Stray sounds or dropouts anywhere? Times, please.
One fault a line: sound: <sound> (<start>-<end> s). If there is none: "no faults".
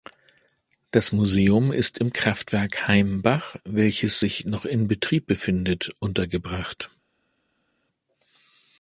no faults